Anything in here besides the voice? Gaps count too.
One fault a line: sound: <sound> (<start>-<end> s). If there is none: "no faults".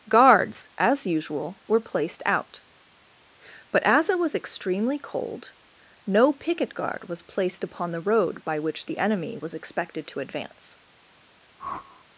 sound: whoosh (11.6-12.0 s)